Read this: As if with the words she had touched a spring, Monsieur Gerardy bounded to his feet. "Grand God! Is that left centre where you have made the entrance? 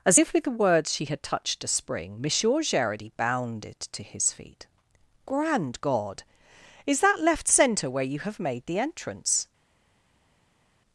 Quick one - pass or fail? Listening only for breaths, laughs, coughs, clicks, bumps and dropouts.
pass